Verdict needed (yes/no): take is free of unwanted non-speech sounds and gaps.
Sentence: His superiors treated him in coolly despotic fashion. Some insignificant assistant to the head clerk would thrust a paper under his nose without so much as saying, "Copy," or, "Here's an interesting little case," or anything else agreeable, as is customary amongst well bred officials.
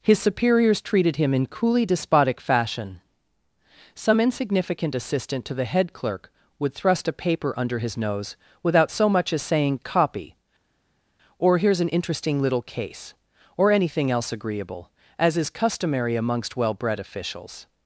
yes